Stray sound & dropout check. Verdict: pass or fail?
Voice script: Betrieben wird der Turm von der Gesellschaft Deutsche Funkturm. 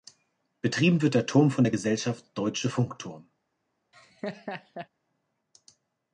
fail